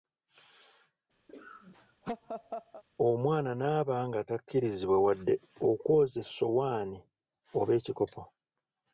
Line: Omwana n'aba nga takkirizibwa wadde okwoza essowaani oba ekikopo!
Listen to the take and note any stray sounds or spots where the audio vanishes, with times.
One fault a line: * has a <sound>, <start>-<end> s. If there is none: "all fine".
* has a laugh, 1.3-2.8 s